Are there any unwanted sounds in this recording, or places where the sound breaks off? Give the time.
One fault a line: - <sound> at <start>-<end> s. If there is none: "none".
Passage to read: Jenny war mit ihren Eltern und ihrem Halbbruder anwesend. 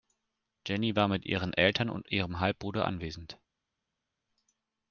none